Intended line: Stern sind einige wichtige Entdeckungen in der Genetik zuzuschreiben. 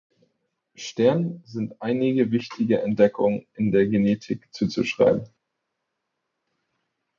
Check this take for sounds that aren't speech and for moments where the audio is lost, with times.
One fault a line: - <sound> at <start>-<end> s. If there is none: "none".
none